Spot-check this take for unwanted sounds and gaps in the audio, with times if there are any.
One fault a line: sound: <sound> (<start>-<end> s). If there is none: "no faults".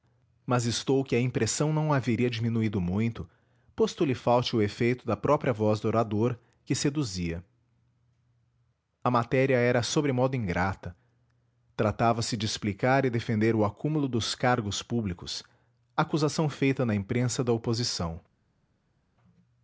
no faults